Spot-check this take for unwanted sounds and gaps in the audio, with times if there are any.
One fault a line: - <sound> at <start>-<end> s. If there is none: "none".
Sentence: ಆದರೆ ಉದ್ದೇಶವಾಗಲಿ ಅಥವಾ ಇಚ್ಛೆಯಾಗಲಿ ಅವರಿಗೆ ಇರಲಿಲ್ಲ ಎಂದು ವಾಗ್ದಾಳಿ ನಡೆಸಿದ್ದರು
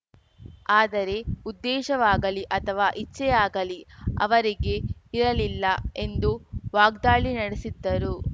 none